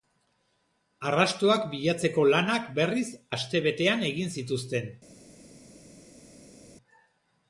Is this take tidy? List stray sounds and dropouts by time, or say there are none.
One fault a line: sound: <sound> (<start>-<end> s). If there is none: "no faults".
no faults